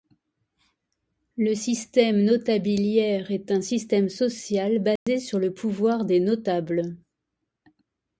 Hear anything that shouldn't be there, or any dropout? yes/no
yes